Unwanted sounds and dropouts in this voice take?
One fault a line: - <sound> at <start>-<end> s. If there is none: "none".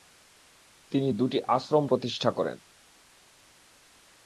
none